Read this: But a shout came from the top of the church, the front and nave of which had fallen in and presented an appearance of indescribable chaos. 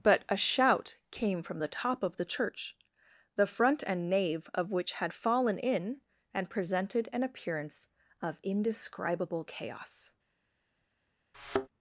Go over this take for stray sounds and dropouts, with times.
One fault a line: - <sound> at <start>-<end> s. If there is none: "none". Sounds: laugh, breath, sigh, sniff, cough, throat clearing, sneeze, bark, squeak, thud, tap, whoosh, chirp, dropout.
- thud at 11.3-11.7 s